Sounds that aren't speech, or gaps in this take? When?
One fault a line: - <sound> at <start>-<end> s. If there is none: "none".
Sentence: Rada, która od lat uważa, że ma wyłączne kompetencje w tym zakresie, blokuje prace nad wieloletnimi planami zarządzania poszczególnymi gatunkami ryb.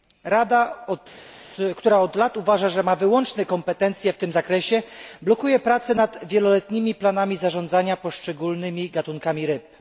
none